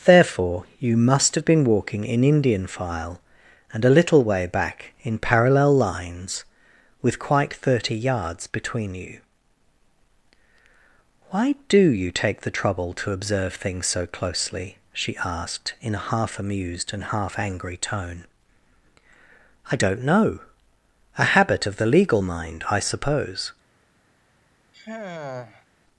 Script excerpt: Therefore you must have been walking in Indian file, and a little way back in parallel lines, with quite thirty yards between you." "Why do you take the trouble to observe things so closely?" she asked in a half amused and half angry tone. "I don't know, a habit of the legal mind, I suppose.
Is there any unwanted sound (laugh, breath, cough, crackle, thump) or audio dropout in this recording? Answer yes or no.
yes